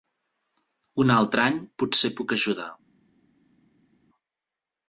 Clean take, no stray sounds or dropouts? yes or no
yes